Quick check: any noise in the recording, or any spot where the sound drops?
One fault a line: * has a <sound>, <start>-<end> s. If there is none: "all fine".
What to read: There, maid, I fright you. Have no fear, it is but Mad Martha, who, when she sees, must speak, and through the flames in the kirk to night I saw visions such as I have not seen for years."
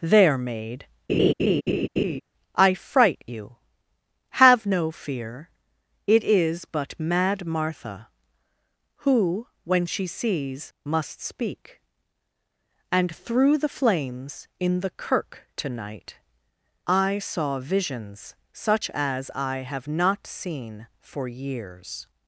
* has a laugh, 1.1-2.2 s